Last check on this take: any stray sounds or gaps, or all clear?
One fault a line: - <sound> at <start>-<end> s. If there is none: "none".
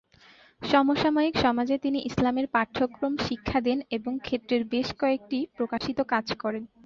- dropout at 5.8-5.8 s